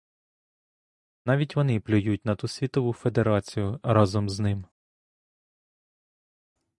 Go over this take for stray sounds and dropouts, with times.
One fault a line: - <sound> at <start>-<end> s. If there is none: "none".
none